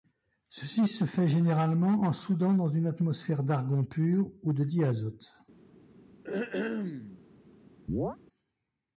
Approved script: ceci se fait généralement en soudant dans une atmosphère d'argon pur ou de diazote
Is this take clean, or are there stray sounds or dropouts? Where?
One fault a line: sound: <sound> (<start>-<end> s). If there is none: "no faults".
sound: throat clearing (6.2-7.2 s)
sound: chirp (7.9-8.2 s)